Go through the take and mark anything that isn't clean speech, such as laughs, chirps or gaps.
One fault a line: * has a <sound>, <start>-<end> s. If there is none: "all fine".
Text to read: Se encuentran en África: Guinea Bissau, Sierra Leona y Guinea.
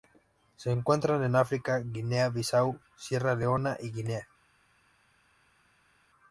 all fine